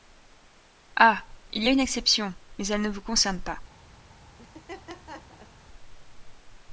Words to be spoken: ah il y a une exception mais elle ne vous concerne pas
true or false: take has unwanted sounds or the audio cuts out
true